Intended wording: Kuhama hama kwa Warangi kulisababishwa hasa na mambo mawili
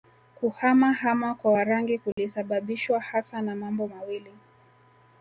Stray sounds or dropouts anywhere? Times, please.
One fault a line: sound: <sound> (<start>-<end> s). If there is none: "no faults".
sound: dropout (2.1-2.2 s)